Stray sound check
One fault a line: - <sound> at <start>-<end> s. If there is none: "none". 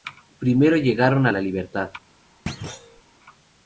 - thud at 2.5-3.0 s